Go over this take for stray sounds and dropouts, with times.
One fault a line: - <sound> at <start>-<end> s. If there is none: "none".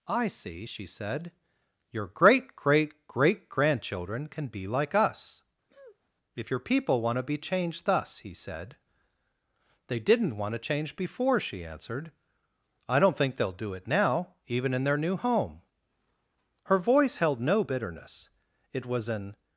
- sniff at 5.7-6.1 s